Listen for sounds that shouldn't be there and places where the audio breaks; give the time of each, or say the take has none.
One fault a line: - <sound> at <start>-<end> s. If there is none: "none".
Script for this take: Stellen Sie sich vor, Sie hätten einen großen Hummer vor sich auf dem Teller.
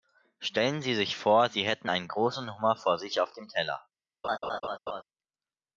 - laugh at 4.2-5.0 s